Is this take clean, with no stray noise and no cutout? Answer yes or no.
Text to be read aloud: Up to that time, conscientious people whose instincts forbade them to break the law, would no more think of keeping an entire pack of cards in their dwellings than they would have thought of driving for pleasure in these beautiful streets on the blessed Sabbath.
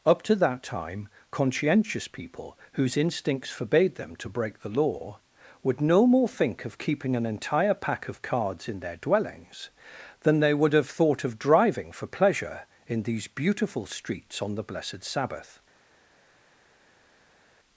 yes